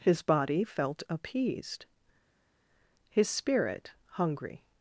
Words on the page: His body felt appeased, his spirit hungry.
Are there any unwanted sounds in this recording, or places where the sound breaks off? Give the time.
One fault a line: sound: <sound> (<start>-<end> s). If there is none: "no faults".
no faults